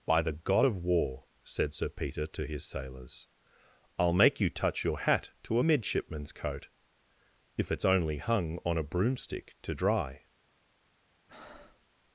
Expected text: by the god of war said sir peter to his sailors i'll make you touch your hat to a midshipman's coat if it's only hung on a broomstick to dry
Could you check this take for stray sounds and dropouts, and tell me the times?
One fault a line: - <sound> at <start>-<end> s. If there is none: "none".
- breath at 11.3-11.9 s